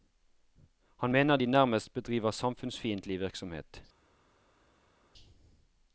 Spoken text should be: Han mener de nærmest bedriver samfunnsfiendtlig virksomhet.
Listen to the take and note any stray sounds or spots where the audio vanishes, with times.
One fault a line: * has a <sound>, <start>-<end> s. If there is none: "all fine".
all fine